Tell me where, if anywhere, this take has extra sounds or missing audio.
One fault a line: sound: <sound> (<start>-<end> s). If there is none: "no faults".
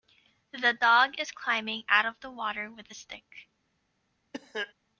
sound: cough (4.3-4.7 s)